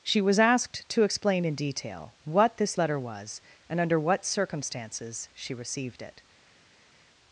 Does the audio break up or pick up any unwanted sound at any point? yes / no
no